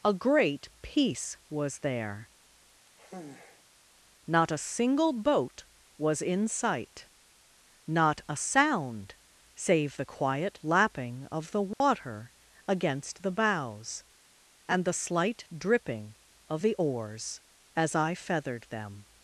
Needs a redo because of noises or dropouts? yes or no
yes